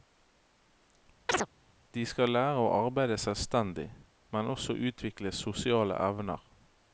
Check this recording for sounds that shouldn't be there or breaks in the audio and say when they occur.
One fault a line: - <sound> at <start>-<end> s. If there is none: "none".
- chirp at 1.3-1.5 s